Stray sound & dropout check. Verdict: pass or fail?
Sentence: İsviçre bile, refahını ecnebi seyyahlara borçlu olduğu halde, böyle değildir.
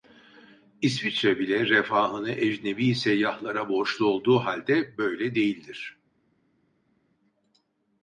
pass